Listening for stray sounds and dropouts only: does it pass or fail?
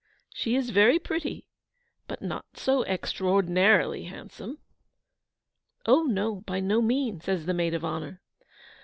pass